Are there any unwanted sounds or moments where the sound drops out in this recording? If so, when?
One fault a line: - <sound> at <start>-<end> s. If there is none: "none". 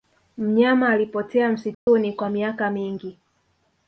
- dropout at 1.7-1.9 s